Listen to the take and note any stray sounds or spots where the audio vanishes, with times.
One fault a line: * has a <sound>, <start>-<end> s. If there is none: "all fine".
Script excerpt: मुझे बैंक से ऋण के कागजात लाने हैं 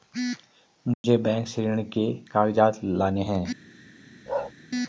* has a dropout, 0.9-1.0 s
* has a bark, 4.3-4.5 s